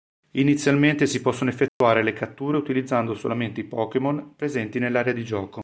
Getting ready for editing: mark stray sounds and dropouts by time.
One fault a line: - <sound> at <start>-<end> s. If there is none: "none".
- dropout at 1.7-1.8 s